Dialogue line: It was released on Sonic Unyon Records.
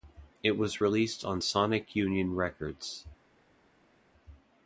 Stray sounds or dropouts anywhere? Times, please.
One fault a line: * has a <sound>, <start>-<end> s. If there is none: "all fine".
all fine